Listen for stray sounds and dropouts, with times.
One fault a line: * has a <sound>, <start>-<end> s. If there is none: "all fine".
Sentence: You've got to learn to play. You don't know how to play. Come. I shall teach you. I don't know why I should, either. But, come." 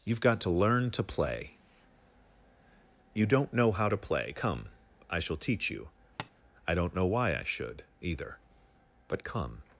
* has a tap, 6.2-6.3 s